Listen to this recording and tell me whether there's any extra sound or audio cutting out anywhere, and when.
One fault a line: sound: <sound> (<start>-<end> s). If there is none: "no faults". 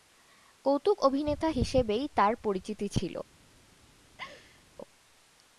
sound: laugh (4.2-4.6 s)